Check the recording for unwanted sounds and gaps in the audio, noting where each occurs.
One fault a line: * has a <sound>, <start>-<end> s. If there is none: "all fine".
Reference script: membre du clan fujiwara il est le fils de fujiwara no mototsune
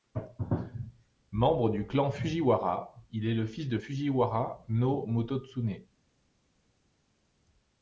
all fine